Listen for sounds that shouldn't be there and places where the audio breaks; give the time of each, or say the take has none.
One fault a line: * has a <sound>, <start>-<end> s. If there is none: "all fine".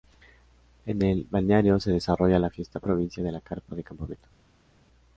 all fine